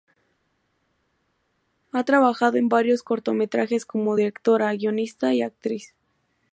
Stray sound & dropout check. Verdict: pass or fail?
pass